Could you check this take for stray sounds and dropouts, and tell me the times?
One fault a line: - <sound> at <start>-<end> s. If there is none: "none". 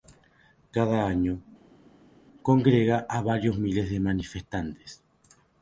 none